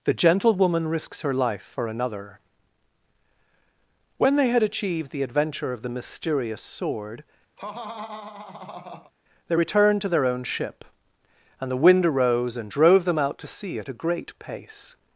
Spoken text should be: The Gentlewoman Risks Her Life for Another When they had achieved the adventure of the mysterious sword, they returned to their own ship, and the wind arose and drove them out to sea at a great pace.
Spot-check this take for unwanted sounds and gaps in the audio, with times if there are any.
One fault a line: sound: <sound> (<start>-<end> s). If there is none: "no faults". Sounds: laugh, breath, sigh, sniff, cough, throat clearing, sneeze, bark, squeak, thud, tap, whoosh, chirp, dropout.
sound: laugh (7.6-9.1 s)